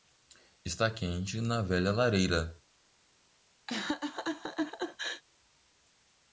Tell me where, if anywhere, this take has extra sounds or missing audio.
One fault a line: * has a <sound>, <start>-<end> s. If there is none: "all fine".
* has a laugh, 3.7-5.2 s